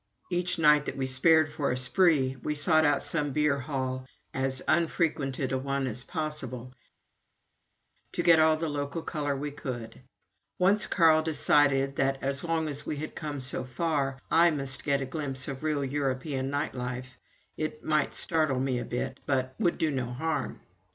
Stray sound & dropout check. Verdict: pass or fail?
pass